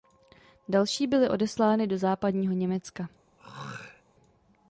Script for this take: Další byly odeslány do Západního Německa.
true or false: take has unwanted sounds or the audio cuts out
true